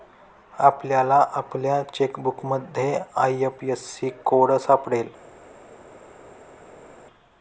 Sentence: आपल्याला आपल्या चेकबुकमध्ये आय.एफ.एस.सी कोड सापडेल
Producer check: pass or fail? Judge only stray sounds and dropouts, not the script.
pass